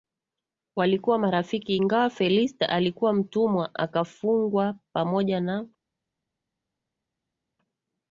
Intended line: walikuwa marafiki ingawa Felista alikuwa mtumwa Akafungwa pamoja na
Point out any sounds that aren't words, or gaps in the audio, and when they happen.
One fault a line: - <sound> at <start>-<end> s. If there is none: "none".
none